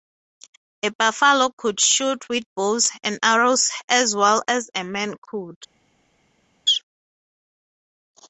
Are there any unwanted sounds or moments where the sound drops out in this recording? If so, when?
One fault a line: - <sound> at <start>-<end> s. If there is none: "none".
none